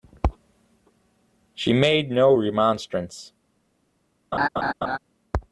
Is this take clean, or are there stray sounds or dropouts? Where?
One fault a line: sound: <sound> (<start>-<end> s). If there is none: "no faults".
sound: laugh (4.3-5.0 s)